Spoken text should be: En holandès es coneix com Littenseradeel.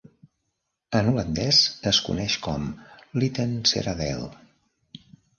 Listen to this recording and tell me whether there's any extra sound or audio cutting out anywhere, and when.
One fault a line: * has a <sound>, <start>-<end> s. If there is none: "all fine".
all fine